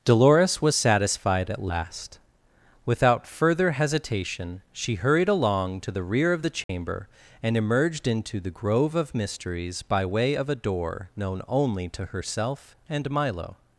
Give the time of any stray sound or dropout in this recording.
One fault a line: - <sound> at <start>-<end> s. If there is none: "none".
- dropout at 6.6-6.7 s